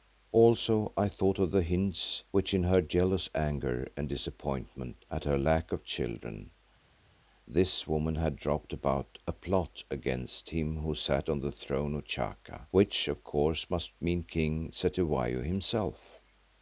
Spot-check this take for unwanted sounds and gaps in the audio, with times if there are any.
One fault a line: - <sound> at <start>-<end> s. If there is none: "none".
none